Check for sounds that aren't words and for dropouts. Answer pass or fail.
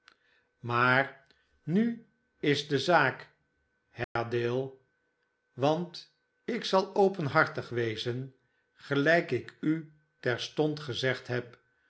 fail